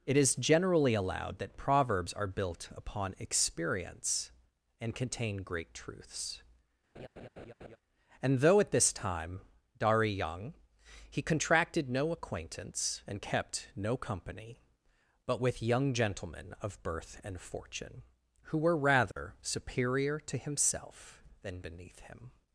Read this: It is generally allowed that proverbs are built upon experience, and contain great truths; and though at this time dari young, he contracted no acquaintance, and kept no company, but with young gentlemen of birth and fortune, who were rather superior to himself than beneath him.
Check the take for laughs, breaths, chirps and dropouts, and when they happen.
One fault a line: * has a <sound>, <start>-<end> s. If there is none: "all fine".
* has a laugh, 7.0-7.8 s
* has a dropout, 19.1-19.2 s